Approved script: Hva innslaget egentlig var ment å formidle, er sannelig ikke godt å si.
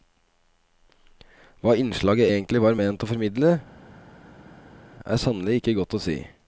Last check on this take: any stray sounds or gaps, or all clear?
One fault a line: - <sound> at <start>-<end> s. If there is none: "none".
none